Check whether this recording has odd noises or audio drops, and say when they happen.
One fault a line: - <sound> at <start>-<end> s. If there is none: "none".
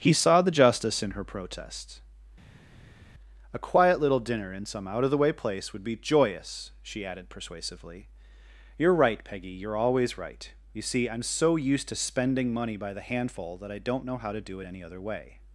none